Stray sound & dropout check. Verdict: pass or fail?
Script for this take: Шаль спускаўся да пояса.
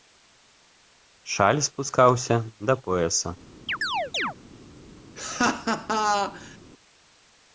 fail